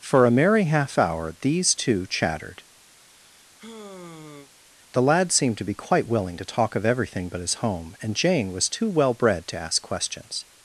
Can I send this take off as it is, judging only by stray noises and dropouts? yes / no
no